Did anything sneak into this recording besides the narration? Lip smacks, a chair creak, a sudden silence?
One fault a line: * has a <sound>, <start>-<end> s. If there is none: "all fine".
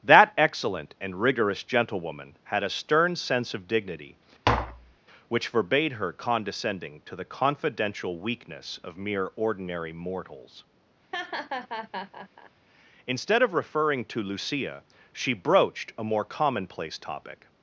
* has a tap, 4.4-5.0 s
* has a laugh, 11.1-12.5 s